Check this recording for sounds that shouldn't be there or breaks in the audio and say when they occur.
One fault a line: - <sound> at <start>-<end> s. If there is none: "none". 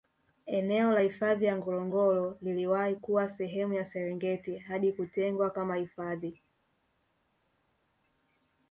none